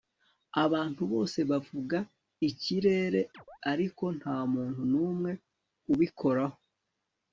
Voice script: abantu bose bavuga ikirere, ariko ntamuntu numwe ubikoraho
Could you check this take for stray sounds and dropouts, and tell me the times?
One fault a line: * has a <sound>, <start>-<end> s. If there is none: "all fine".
* has a chirp, 3.3-3.6 s